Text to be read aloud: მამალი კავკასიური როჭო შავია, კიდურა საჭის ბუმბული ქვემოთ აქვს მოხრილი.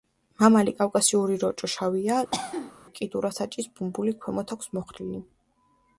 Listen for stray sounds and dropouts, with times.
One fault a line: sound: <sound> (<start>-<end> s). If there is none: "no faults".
sound: cough (2.3-2.7 s)